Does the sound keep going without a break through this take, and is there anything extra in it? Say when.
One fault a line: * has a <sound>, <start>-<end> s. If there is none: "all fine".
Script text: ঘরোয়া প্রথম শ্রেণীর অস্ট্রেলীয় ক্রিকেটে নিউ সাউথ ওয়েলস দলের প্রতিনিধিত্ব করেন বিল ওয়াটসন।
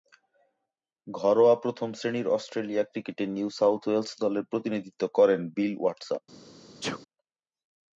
* has a sneeze, 6.8-7.0 s